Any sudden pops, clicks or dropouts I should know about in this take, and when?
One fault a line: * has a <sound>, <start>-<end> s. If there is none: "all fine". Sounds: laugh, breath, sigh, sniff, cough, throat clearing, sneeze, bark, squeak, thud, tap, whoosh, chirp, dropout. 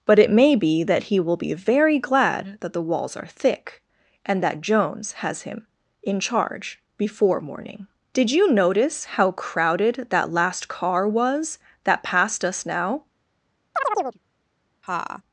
* has a chirp, 13.8-14.2 s
* has a laugh, 14.8-15.2 s